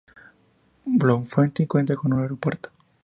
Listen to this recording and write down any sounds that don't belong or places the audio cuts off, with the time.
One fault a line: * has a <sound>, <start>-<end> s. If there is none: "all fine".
all fine